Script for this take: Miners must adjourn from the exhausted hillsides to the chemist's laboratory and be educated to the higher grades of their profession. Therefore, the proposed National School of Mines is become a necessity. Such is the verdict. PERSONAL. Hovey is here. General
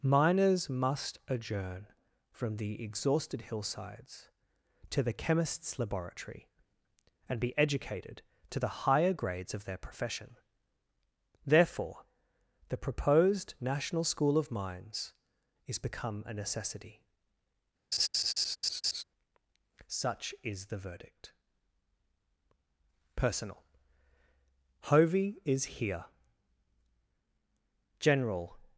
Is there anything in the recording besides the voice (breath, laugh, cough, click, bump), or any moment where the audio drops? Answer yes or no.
yes